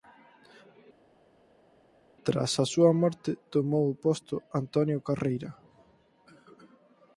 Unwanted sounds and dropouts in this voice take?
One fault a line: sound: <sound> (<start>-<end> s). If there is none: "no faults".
no faults